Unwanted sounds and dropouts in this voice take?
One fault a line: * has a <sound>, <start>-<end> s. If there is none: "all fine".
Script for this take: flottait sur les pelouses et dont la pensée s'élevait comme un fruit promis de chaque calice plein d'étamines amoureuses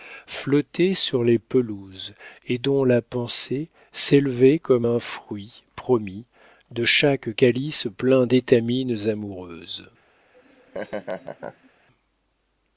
* has a laugh, 10.3-11.7 s